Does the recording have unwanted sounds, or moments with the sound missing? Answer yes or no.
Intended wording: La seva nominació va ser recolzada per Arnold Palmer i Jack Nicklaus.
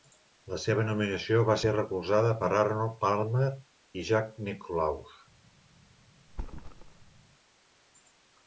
yes